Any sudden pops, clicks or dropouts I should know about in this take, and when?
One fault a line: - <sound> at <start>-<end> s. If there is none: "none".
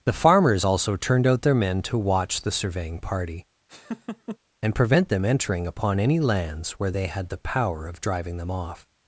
- laugh at 3.7-4.4 s